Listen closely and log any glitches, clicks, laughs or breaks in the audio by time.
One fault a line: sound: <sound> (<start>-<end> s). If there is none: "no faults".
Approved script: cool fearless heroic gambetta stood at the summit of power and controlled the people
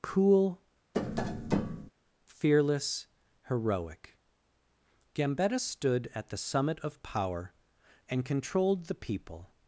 sound: tap (0.9-1.9 s)